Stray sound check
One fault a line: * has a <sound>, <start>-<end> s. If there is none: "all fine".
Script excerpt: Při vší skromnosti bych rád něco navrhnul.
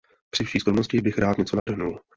* has a dropout, 1.6-1.7 s